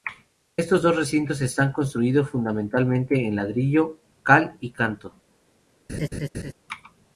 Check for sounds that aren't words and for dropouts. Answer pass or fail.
fail